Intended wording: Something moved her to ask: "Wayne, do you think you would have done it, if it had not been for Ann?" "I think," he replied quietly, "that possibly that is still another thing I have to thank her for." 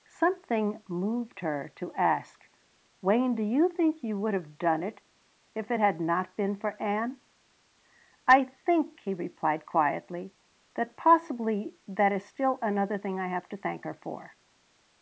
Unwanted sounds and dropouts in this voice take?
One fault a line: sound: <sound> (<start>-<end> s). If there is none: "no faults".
no faults